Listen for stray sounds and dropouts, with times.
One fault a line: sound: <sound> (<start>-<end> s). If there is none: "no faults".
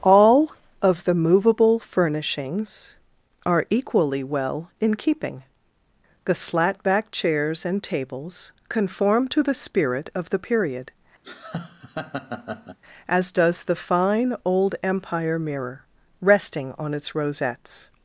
sound: laugh (11.2-12.8 s)